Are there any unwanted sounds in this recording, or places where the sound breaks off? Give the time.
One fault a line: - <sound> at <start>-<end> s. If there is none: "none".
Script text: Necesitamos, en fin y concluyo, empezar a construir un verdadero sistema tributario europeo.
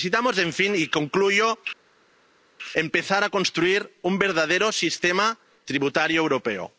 none